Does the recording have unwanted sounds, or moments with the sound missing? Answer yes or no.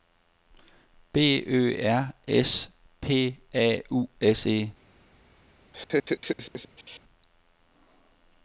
yes